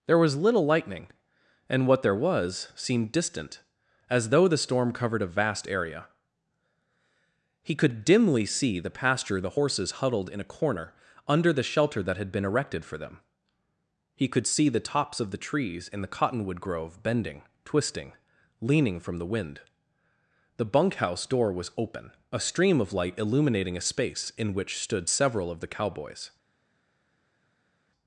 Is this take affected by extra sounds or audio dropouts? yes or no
no